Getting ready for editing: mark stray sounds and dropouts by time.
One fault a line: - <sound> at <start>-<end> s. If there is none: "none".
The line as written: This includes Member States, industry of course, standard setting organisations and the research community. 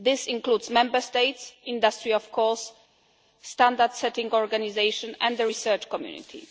none